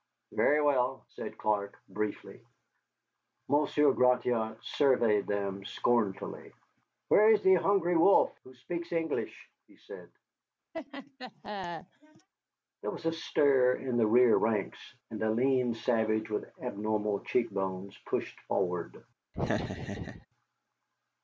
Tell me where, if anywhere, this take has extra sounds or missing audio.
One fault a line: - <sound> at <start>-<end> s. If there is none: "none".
- laugh at 10.7-12.3 s
- laugh at 19.3-20.3 s